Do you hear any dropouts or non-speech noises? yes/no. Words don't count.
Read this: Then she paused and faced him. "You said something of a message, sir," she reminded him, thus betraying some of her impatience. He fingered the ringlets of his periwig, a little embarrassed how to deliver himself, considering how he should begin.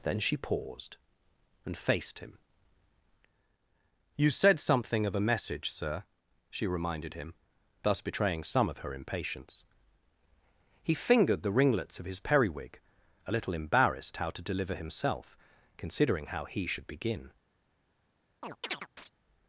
yes